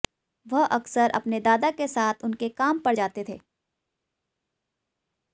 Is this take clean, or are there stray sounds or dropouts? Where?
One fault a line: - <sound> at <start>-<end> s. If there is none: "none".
none